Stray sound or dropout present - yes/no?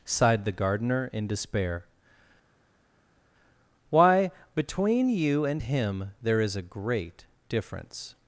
no